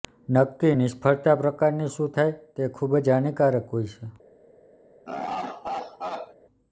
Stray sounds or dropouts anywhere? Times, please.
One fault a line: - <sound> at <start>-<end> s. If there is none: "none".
- laugh at 5.1-6.3 s